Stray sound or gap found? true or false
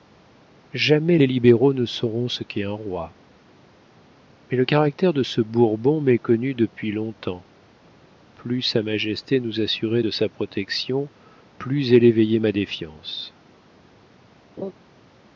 true